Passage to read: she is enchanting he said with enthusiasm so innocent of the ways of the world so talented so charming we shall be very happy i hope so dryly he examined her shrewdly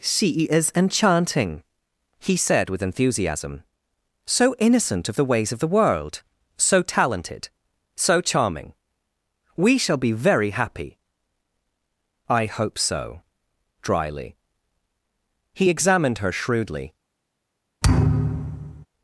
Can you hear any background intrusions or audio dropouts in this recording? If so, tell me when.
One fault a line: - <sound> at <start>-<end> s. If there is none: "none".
- thud at 17.8-18.9 s